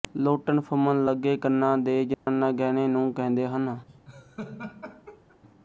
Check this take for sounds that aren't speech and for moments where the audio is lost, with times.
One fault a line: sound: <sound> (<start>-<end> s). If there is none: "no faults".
sound: dropout (2.1-2.3 s)
sound: laugh (3.9-5.4 s)